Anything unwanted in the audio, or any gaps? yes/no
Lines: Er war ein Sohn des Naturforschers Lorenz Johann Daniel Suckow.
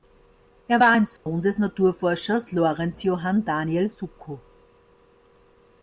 yes